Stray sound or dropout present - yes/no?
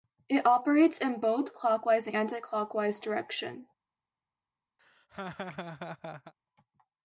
yes